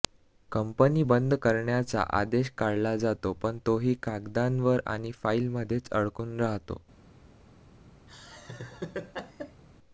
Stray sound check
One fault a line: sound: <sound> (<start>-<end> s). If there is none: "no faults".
sound: laugh (8.1-9.6 s)